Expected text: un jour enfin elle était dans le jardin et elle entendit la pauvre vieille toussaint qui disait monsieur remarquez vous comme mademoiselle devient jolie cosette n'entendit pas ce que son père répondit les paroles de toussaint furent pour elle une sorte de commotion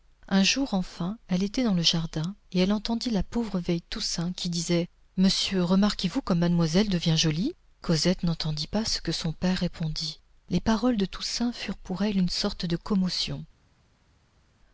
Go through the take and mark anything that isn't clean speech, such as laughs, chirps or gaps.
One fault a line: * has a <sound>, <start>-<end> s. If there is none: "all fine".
all fine